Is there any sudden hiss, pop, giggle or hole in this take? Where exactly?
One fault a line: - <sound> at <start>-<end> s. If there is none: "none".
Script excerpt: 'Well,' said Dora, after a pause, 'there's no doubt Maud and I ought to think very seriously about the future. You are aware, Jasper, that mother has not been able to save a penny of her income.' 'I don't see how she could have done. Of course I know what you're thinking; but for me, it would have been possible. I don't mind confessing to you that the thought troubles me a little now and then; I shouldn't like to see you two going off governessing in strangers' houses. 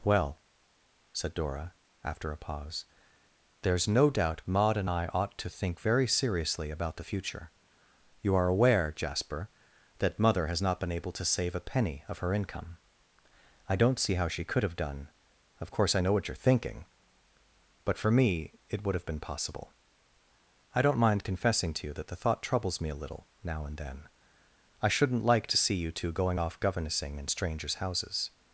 none